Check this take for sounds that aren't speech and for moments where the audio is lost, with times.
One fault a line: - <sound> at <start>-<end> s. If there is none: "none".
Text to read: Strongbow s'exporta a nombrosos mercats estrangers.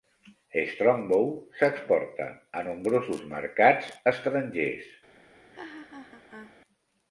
- laugh at 5.5-6.6 s